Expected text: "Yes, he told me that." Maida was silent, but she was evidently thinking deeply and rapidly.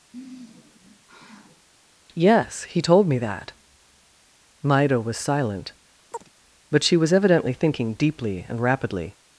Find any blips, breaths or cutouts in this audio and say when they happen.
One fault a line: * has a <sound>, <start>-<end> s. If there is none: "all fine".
* has a sigh, 0.1-1.7 s
* has a chirp, 6.1-6.3 s